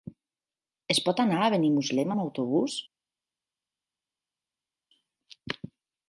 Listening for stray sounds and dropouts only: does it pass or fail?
pass